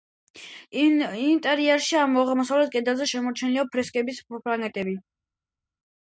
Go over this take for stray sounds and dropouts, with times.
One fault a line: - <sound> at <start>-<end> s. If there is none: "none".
none